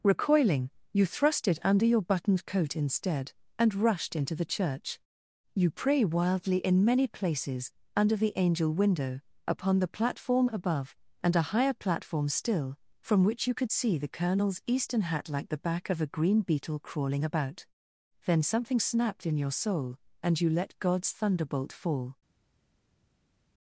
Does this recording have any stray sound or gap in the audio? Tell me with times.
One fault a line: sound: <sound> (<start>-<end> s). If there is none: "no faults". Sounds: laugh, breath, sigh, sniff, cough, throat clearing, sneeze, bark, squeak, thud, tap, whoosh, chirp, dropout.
no faults